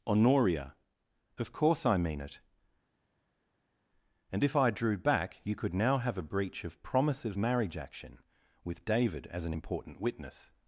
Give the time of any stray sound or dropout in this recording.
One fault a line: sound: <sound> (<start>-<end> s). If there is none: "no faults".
no faults